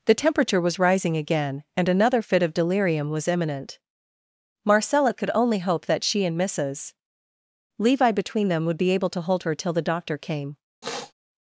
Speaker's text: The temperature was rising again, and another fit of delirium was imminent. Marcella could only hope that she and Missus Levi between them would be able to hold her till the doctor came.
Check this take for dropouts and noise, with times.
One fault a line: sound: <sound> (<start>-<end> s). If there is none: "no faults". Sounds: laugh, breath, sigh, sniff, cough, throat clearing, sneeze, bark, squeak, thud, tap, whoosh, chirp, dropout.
sound: sniff (10.8-11.1 s)